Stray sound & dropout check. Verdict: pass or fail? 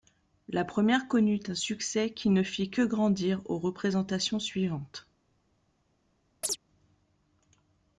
fail